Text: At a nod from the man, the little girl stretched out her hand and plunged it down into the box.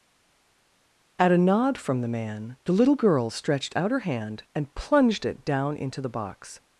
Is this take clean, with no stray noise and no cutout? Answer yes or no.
yes